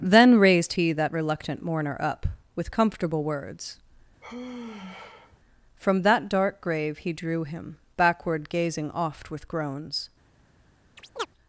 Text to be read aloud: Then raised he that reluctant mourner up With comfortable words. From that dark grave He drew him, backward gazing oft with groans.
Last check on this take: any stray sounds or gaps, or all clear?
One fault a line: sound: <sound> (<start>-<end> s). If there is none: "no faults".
sound: sigh (4.2-5.4 s)
sound: chirp (11.0-11.3 s)